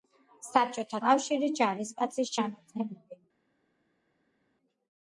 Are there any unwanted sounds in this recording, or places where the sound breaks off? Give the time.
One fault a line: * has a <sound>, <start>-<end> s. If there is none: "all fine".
all fine